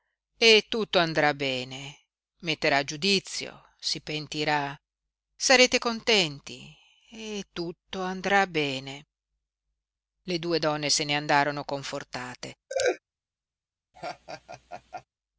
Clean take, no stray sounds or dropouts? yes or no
no